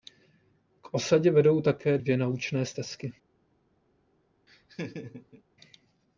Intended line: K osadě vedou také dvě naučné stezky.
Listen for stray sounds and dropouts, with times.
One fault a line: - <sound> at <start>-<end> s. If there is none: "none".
- laugh at 4.5-5.4 s